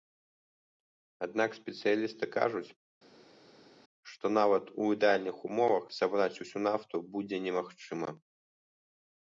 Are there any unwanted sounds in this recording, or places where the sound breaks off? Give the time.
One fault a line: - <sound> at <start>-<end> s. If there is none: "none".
none